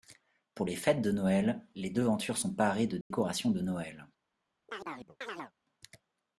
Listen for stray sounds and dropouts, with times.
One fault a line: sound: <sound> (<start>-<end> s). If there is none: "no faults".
sound: dropout (3.0-3.1 s)
sound: chirp (4.7-5.5 s)